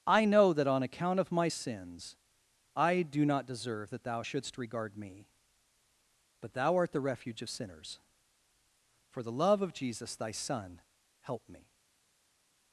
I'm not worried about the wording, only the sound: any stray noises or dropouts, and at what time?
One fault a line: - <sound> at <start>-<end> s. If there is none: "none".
none